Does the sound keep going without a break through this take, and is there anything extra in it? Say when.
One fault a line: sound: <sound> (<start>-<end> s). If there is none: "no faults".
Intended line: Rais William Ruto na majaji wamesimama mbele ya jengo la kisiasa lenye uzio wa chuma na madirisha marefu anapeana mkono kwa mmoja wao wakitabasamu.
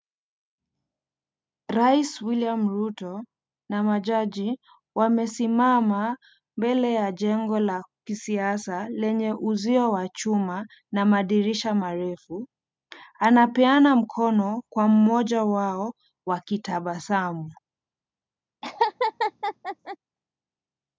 sound: laugh (18.6-20.0 s)